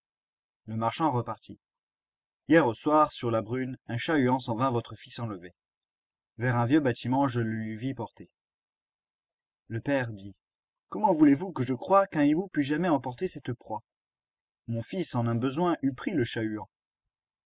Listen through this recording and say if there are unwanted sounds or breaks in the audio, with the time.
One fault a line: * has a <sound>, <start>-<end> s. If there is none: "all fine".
all fine